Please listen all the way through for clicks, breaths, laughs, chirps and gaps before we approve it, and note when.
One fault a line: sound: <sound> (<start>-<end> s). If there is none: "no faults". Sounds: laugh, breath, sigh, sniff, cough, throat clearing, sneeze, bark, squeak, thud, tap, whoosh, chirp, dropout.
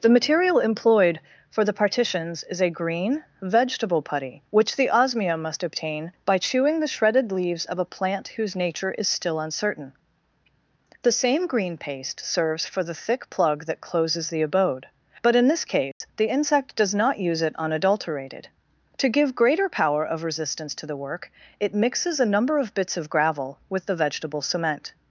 sound: dropout (15.9-16.0 s)